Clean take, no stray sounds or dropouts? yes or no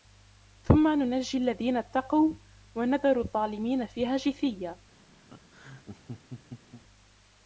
no